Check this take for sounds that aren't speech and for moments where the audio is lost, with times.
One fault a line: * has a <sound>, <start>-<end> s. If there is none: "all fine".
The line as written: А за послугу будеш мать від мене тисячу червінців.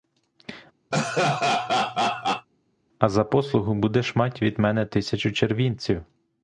* has a laugh, 0.9-2.5 s